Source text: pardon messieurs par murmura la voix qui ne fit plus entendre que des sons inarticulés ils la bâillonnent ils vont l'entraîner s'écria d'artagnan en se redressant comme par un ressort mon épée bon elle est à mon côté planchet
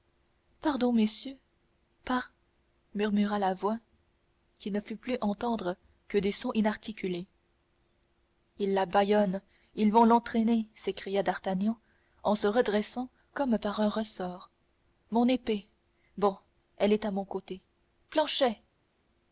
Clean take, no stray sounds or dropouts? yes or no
yes